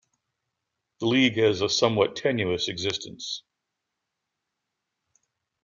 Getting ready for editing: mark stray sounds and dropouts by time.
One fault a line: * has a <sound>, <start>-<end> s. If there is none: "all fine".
all fine